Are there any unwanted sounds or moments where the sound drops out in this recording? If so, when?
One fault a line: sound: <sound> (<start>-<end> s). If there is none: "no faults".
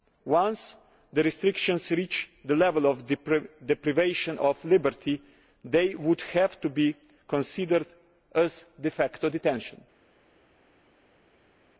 no faults